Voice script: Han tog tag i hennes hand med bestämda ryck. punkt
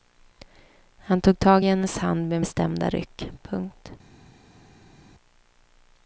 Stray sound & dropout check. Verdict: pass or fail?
pass